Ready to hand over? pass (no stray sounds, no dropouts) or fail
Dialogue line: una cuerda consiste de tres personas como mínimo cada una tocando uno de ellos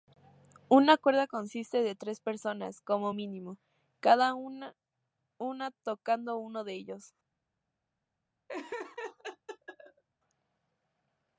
fail